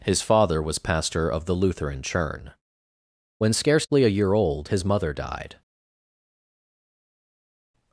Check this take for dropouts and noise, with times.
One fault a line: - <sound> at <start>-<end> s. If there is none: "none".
none